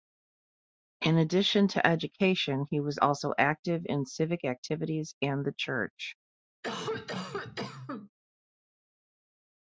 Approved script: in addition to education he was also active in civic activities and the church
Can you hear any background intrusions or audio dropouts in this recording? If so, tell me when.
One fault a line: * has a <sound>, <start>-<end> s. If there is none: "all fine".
* has a cough, 6.6-8.1 s